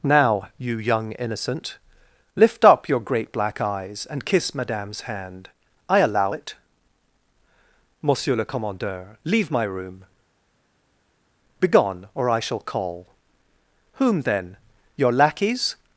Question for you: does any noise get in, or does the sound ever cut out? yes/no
no